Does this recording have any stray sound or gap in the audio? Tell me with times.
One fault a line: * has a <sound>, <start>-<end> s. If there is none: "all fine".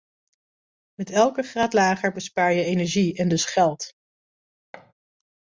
* has a thud, 4.7-4.9 s